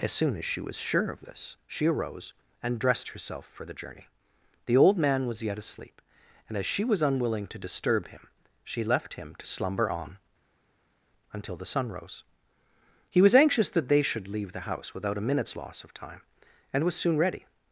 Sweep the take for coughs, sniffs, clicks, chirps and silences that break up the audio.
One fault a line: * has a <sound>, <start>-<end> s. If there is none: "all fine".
all fine